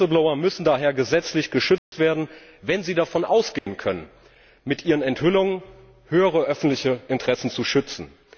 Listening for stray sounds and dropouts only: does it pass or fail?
fail